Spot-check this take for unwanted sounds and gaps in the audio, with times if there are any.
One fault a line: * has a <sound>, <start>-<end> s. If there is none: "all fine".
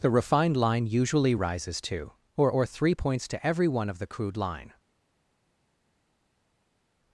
all fine